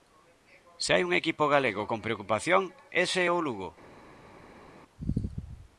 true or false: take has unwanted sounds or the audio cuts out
false